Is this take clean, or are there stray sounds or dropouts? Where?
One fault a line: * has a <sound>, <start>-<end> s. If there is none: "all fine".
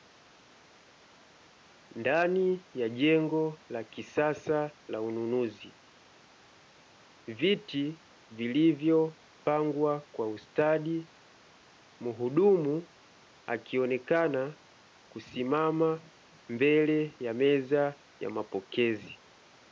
all fine